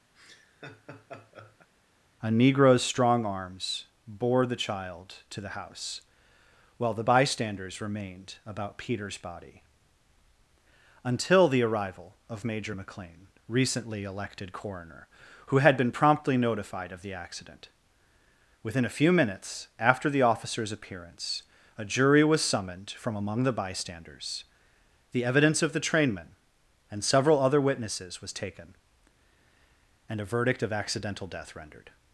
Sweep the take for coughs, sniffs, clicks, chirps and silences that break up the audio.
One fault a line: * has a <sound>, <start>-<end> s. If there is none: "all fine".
* has a laugh, 0.1-1.7 s